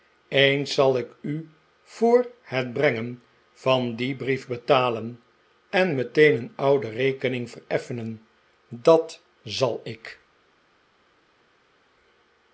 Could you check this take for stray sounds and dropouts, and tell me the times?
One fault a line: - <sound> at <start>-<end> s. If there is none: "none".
none